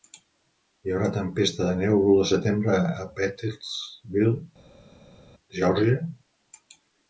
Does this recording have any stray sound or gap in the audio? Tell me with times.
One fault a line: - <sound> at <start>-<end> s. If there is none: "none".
none